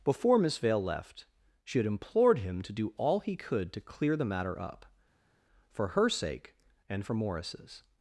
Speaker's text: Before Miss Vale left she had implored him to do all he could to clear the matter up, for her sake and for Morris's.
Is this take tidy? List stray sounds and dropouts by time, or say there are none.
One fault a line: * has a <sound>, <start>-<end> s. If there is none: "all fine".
all fine